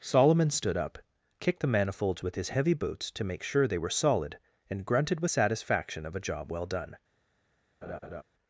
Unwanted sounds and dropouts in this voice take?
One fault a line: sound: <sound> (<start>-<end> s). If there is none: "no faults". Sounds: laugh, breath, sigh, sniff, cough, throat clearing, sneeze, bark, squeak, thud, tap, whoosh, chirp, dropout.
sound: laugh (7.8-8.2 s)